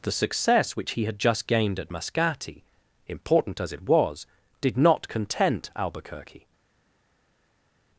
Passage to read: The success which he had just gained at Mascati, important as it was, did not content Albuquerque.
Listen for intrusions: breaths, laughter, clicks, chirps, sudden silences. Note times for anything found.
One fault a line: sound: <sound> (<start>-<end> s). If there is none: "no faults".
no faults